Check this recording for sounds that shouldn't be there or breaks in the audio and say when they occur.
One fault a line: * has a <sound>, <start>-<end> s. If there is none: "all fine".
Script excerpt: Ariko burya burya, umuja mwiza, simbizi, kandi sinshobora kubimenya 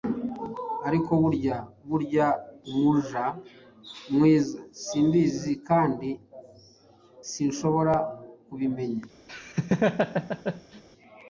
* has a laugh, 9.3-10.8 s